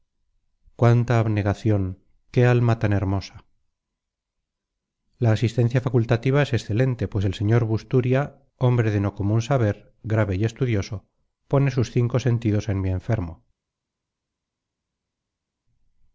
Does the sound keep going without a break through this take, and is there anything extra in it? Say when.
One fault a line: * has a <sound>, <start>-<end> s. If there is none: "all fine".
all fine